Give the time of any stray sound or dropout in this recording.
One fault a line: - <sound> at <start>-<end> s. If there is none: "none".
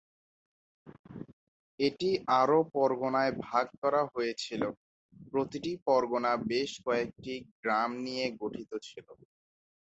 none